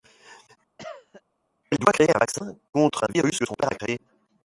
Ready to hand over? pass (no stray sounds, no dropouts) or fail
fail